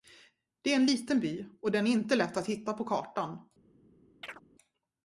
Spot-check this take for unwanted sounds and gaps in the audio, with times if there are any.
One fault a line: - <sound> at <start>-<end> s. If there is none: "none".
- chirp at 4.2-4.4 s